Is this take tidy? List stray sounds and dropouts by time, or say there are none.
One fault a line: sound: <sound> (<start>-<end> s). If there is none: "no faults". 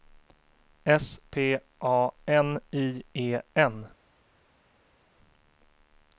no faults